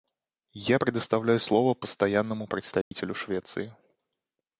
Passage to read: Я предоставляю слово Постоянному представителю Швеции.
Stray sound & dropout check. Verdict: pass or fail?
fail